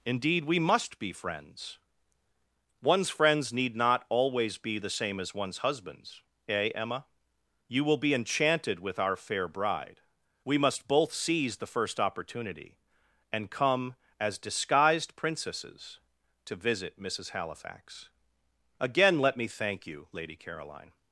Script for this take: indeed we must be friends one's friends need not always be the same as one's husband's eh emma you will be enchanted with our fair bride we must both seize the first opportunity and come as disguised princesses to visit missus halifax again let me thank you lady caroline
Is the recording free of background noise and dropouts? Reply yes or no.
yes